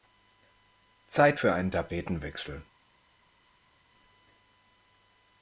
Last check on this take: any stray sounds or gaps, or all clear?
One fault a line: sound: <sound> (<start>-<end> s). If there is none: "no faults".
no faults